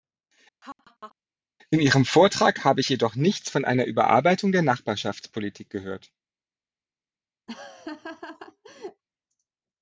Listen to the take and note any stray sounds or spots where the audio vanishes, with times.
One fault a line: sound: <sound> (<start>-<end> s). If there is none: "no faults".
sound: laugh (0.6-1.1 s)
sound: laugh (7.5-9.0 s)